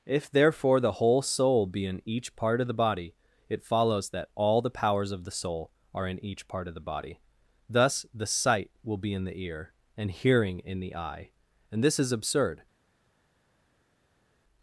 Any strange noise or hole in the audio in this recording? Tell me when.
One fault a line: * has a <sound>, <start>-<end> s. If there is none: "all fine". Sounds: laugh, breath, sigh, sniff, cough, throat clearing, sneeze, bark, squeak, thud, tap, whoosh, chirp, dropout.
all fine